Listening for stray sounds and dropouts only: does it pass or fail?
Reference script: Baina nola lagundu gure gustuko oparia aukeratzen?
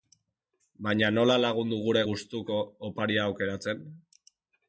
pass